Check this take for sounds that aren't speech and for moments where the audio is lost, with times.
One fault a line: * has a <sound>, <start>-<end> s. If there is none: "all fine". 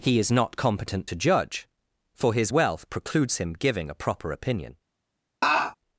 * has a laugh, 5.4-5.8 s